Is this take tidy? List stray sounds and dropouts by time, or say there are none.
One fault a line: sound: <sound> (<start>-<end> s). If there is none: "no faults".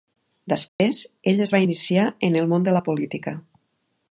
sound: dropout (0.7-0.8 s)